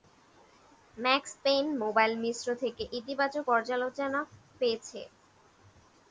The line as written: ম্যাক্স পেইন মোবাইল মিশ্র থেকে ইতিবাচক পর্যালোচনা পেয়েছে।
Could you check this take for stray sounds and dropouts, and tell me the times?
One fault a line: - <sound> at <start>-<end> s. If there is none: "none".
none